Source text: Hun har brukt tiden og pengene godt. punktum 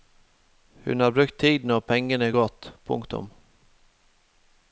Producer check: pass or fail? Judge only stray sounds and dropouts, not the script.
pass